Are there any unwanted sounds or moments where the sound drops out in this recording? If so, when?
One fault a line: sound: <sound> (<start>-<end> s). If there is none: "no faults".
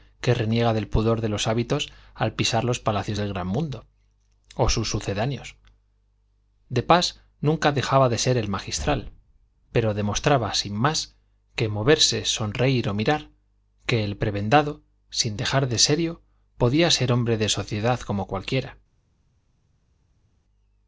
no faults